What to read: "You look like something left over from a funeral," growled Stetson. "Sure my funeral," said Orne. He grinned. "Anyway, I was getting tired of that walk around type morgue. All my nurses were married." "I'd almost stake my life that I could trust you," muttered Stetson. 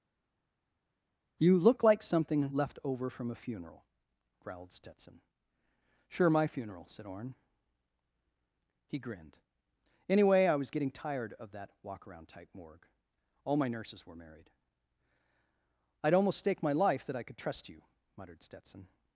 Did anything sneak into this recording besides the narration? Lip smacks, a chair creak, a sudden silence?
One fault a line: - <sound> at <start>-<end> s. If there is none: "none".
none